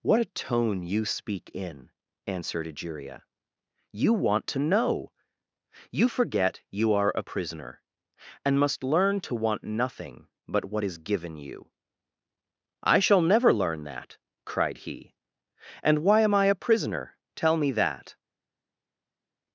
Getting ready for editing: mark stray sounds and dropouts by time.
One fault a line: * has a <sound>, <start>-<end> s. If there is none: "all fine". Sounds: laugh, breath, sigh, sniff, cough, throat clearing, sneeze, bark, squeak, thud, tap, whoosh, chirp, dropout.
all fine